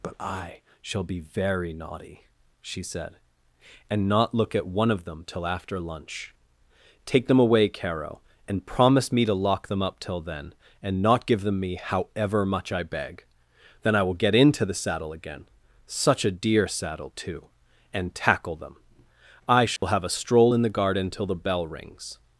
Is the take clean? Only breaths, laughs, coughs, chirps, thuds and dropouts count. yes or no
no